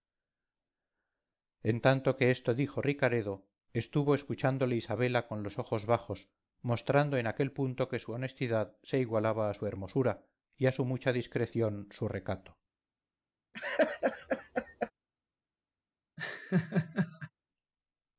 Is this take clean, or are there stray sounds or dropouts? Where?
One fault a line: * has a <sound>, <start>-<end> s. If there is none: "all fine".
* has a laugh, 13.5-14.9 s
* has a laugh, 16.2-17.3 s